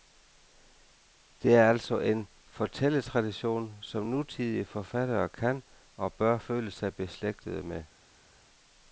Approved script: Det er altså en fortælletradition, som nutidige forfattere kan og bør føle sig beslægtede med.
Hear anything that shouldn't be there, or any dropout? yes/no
no